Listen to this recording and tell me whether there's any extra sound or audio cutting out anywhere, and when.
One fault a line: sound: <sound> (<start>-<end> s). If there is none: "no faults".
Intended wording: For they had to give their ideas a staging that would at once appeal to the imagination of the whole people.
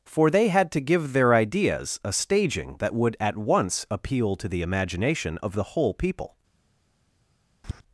sound: tap (7.6-7.8 s)